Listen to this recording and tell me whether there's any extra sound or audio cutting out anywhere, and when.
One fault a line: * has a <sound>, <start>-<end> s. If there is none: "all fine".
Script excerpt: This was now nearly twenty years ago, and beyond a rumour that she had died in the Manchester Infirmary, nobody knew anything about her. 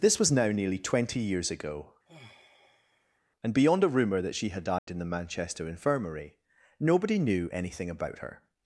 * has a sigh, 2.1-3.2 s
* has a dropout, 4.8-4.9 s